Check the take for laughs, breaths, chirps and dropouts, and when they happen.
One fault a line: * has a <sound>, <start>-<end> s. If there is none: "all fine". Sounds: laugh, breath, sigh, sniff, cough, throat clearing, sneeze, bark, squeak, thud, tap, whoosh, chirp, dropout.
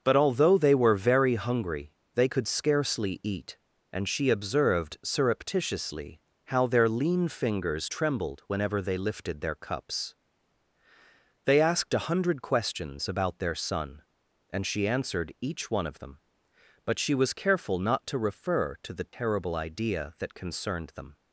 * has a dropout, 19.1-19.1 s